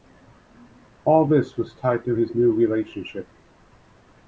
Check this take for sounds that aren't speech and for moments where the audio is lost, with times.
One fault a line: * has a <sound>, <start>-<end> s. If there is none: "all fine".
all fine